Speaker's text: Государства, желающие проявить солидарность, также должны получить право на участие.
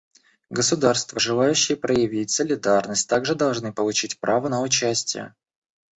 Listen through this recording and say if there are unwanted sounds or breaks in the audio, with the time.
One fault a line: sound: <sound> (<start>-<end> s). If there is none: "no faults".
no faults